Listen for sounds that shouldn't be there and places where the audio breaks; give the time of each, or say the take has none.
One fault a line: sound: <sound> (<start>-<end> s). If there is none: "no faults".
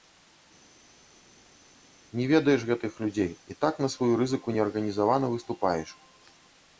no faults